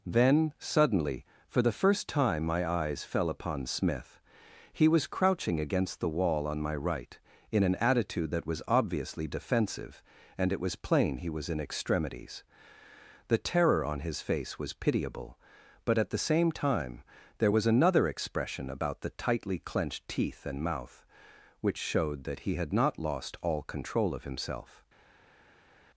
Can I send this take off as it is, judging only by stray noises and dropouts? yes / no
yes